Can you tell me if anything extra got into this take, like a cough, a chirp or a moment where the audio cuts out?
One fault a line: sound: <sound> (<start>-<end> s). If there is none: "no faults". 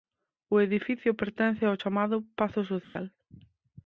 sound: dropout (2.8-3.0 s)